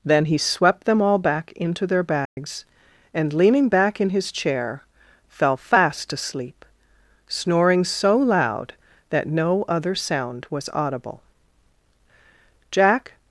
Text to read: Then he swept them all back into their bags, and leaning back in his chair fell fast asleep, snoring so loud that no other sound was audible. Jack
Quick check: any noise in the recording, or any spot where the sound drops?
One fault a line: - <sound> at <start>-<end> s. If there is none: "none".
- dropout at 2.3-2.4 s